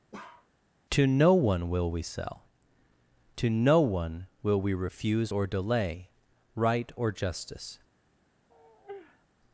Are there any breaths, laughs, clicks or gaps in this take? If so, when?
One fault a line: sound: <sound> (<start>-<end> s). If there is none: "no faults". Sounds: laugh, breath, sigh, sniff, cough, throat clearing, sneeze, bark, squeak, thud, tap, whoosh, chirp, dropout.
sound: bark (0.1-0.5 s)
sound: sigh (8.5-9.3 s)